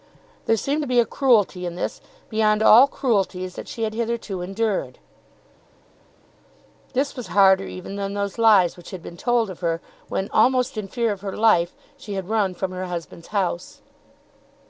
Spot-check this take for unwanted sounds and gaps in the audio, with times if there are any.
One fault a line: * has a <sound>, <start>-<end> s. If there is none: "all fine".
all fine